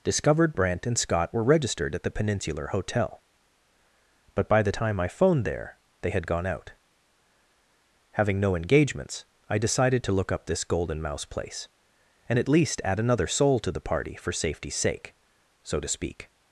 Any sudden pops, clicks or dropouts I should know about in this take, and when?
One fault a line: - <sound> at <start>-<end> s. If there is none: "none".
none